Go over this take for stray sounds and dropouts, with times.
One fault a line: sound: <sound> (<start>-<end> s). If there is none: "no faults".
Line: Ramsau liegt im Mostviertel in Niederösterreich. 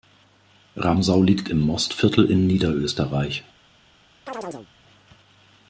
sound: chirp (4.3-4.7 s)